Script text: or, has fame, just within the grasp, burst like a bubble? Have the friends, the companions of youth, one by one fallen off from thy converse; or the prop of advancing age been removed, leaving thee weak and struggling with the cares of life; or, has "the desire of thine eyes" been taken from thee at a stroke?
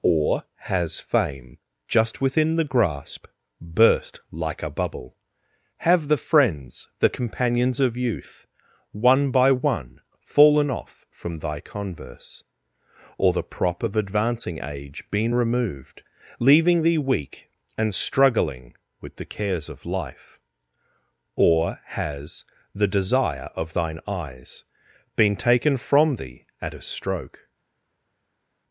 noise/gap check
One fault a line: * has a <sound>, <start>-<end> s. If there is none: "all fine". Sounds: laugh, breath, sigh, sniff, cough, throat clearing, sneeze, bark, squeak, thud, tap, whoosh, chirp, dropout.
all fine